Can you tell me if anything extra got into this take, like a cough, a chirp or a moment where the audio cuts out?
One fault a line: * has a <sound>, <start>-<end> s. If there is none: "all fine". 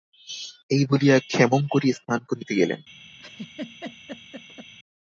* has a laugh, 3.2-4.7 s